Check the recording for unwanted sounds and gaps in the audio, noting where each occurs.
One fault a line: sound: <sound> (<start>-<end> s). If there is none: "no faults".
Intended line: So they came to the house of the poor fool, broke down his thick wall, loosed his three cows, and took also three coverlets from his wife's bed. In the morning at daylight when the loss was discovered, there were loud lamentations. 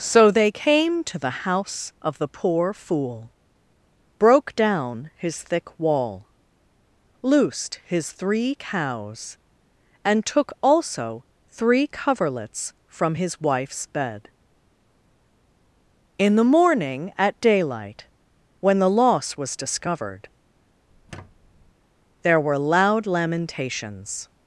sound: squeak (20.9-21.7 s)